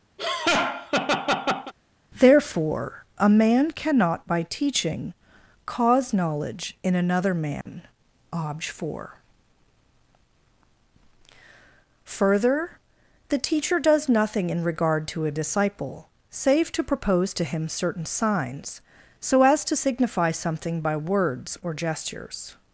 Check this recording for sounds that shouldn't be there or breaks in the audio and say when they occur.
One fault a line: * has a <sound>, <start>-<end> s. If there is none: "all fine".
* has a laugh, 0.2-1.7 s
* has a dropout, 7.6-7.7 s